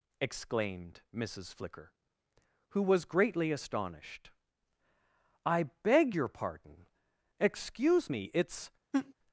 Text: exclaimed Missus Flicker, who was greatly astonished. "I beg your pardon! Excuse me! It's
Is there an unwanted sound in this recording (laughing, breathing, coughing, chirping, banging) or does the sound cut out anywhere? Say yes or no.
yes